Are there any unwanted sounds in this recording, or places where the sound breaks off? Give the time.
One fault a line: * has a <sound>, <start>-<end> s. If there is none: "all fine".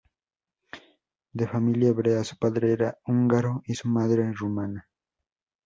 all fine